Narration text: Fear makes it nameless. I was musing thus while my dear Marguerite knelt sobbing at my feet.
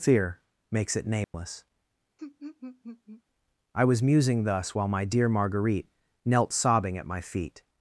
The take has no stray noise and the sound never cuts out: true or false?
false